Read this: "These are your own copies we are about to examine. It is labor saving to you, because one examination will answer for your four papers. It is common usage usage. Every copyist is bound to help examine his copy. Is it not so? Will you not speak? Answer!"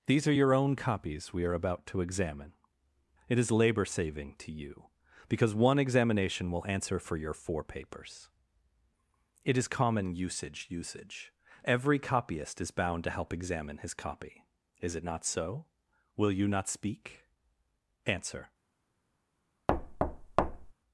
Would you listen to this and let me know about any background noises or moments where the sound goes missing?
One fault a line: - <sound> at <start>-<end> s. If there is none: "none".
- thud at 19.7-20.7 s